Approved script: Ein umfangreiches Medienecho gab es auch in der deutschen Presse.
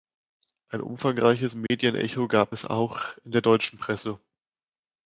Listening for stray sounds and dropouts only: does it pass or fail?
fail